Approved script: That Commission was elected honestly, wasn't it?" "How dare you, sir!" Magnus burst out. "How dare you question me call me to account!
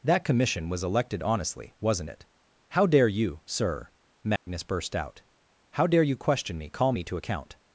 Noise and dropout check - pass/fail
fail